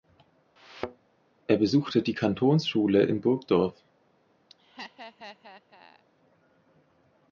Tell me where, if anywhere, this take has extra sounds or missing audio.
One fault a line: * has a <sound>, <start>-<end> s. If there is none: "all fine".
* has a thud, 0.6-1.1 s
* has a laugh, 4.5-6.0 s